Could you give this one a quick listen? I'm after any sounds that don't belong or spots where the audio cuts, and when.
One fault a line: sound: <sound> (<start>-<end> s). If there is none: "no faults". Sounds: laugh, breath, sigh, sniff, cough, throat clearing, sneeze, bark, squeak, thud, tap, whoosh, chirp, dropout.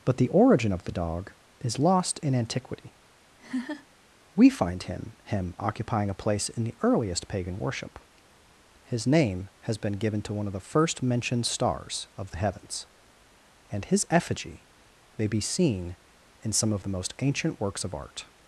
sound: laugh (3.4-3.9 s)